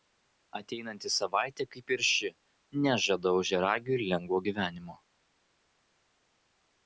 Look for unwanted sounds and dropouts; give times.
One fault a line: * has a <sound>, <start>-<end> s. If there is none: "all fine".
all fine